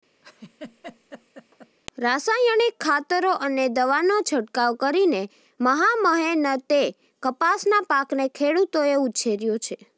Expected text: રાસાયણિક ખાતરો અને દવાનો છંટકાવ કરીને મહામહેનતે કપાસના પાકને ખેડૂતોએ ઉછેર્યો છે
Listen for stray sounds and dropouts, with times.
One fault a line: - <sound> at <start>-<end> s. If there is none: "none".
- laugh at 0.2-1.8 s